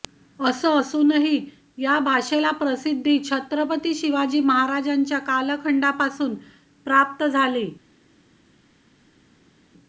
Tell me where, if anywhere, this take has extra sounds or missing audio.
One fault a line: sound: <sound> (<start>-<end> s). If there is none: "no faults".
no faults